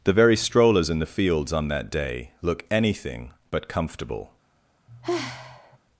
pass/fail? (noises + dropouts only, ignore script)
fail